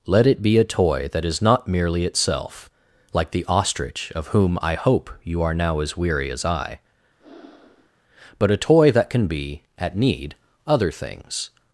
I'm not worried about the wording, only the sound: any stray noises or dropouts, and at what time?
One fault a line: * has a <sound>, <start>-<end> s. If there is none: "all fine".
* has a breath, 7.2-7.9 s